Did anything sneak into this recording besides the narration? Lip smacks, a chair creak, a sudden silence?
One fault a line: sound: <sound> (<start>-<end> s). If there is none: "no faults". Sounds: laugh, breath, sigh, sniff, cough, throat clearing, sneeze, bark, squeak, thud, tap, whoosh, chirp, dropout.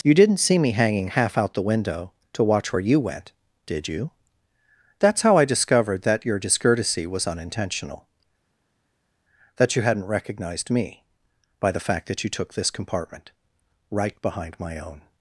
no faults